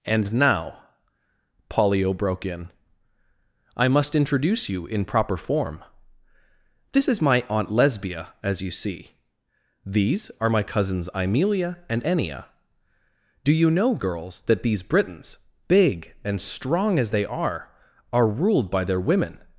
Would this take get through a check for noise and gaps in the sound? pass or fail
pass